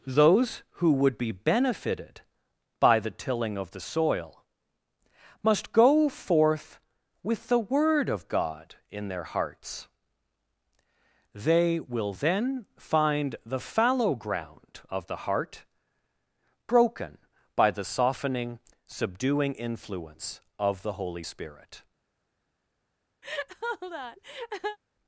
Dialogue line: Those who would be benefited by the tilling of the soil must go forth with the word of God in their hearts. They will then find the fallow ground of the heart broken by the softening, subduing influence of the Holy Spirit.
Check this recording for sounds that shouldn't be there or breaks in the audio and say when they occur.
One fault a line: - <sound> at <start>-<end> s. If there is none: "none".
- laugh at 23.2-24.8 s